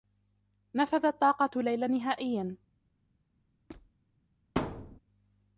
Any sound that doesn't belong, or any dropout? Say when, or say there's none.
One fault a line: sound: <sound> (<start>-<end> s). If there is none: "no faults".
sound: squeak (3.7-3.9 s)
sound: thud (4.6-5.0 s)